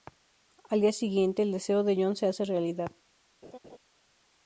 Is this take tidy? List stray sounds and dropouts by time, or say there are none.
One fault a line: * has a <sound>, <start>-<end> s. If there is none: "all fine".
* has a laugh, 3.4-3.8 s